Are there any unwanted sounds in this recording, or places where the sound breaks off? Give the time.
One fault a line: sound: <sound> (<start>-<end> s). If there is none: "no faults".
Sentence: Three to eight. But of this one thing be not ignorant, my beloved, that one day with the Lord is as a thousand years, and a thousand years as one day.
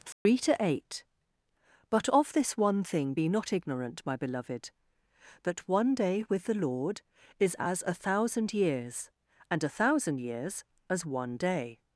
sound: dropout (0.1-0.3 s)